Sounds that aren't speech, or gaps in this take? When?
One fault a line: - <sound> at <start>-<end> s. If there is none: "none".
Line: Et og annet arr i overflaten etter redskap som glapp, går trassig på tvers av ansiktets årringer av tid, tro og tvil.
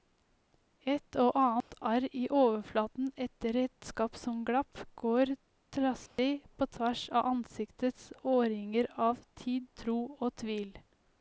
- dropout at 1.6-1.7 s
- dropout at 6.1-6.2 s